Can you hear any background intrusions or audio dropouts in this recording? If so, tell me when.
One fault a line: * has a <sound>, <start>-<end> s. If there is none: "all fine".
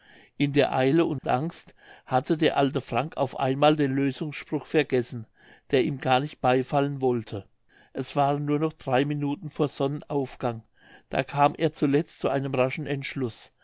* has a dropout, 1.2-1.2 s